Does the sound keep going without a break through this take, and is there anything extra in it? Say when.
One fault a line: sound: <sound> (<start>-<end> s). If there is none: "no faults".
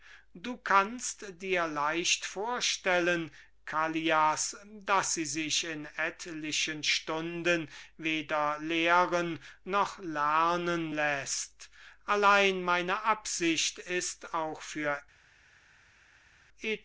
no faults